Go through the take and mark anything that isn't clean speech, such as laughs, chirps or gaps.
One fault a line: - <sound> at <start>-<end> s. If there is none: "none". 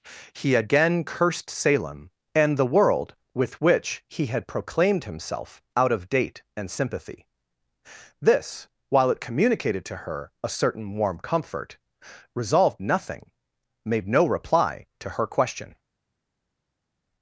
none